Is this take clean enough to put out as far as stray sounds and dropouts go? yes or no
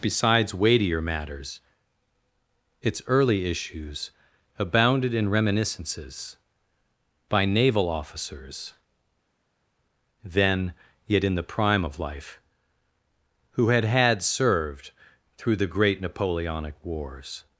yes